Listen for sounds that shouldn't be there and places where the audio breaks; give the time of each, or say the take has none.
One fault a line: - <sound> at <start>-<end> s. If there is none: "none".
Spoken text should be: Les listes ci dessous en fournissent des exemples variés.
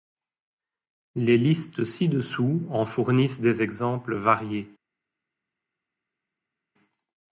none